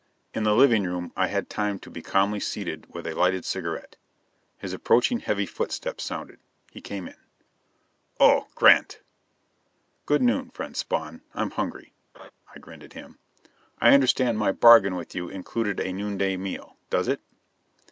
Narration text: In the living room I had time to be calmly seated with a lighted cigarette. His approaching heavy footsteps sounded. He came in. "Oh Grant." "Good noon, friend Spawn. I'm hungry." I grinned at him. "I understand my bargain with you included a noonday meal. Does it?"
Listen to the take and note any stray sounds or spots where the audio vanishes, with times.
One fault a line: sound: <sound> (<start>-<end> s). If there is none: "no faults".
sound: laugh (12.1-12.3 s)